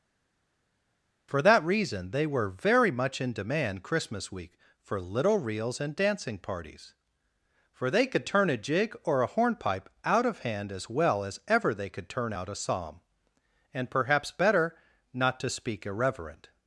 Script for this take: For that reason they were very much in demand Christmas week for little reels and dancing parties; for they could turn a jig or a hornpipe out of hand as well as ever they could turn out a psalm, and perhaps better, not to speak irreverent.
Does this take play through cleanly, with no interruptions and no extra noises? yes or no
yes